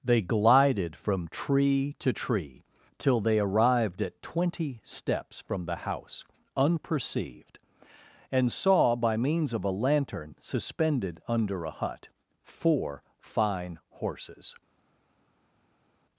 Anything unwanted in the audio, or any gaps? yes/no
no